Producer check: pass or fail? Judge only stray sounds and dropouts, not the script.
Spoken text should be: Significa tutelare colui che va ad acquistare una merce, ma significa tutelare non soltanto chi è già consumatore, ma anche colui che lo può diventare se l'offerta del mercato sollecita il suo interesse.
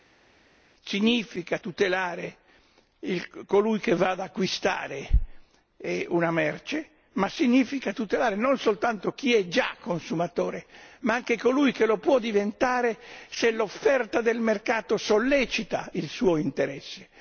pass